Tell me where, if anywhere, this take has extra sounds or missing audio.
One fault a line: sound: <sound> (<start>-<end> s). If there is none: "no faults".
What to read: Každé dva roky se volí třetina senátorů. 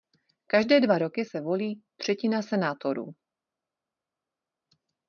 no faults